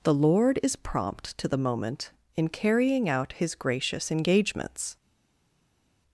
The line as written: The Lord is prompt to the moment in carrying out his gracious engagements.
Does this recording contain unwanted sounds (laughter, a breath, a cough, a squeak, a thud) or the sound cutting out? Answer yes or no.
no